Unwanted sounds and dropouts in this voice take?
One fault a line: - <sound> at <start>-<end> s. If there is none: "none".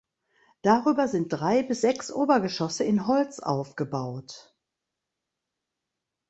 none